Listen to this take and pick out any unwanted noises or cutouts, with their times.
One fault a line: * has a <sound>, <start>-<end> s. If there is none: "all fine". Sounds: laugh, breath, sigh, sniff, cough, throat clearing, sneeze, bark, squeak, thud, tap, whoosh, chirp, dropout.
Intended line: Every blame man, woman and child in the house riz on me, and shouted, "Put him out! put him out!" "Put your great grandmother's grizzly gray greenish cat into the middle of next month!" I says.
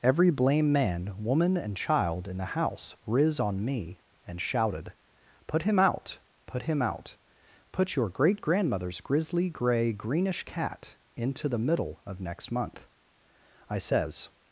all fine